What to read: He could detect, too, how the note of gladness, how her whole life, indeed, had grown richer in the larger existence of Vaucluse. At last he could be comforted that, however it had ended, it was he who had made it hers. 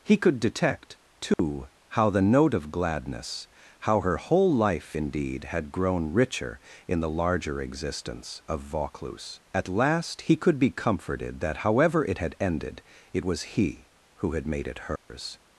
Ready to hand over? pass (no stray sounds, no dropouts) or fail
fail